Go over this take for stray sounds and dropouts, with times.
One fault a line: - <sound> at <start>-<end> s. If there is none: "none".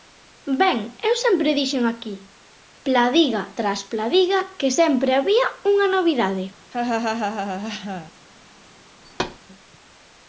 - laugh at 6.7-8.1 s
- thud at 9.0-9.4 s